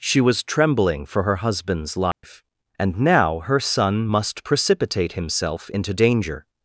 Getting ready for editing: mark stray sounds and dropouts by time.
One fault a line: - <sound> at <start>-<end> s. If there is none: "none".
- dropout at 2.1-2.2 s